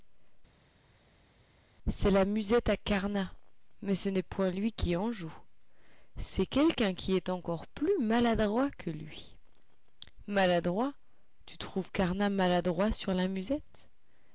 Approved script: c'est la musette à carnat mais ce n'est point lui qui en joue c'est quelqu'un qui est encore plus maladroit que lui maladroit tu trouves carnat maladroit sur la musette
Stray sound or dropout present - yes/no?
no